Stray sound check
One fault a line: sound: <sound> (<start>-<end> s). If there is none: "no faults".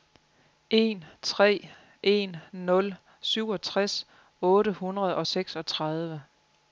no faults